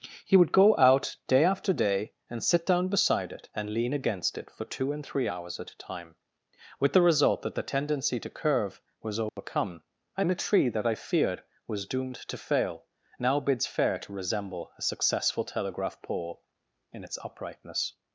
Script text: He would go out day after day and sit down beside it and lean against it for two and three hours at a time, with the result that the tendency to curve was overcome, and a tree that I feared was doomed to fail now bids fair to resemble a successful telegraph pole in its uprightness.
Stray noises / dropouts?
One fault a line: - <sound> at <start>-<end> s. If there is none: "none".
- dropout at 9.3-9.4 s